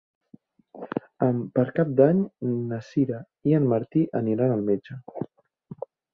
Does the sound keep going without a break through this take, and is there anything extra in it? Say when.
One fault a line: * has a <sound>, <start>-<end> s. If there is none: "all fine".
all fine